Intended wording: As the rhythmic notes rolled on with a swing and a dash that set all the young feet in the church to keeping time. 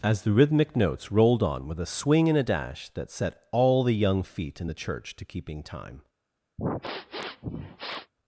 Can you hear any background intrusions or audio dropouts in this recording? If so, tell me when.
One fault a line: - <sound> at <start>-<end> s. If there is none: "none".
- sniff at 6.6-8.1 s